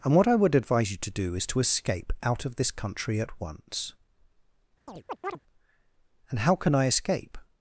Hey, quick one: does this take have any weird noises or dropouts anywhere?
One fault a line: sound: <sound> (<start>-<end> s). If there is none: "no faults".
sound: chirp (4.9-5.4 s)